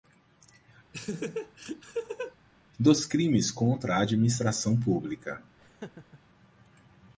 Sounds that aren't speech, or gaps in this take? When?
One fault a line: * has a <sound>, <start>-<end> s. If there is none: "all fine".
* has a laugh, 0.9-2.4 s
* has a laugh, 5.6-6.2 s